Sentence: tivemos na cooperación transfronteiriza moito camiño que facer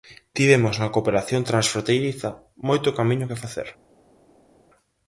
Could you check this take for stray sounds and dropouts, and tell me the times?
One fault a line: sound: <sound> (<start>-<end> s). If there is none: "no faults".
no faults